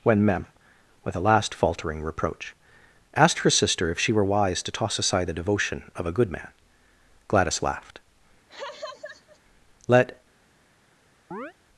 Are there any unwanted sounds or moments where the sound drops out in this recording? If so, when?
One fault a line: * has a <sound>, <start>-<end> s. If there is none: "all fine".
* has a laugh, 8.5-9.4 s
* has a chirp, 11.3-11.5 s